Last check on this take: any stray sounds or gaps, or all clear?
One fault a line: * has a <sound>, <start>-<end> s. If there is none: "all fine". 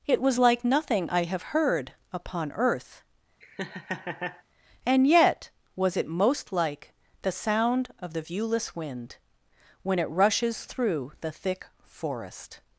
* has a laugh, 3.4-4.4 s